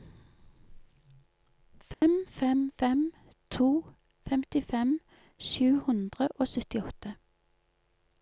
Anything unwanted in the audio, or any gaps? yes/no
yes